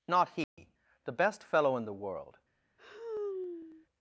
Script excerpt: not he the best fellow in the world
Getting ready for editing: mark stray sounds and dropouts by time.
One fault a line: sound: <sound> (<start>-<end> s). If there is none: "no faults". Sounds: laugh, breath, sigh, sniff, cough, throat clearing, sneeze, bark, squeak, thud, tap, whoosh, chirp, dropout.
sound: dropout (0.4-0.6 s)
sound: sigh (2.8-3.9 s)